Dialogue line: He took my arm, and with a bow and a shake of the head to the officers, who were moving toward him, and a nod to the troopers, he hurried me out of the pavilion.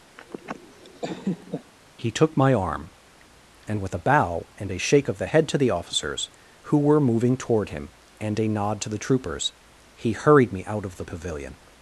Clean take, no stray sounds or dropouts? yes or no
no